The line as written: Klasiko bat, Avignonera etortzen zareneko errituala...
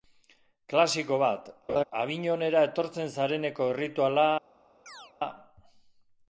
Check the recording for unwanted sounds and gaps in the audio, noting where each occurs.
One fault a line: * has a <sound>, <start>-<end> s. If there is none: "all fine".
* has a laugh, 1.7-1.8 s
* has a chirp, 4.9-5.1 s